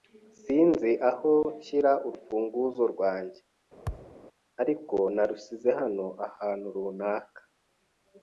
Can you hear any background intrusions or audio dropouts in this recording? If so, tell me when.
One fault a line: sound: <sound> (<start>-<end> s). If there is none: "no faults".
sound: thud (3.9-4.2 s)